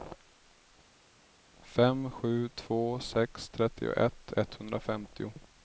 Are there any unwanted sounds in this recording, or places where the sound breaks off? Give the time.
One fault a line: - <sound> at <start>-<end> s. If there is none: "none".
none